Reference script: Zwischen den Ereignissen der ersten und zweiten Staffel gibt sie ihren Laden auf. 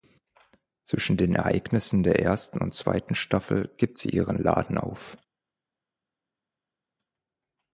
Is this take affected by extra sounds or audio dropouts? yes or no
no